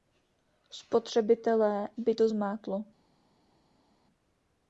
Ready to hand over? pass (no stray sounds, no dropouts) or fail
pass